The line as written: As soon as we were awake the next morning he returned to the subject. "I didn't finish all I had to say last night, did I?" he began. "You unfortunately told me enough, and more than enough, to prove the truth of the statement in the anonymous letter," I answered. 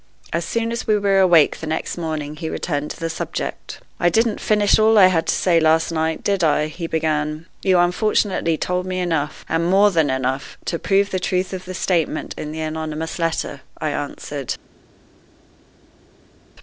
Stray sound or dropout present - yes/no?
no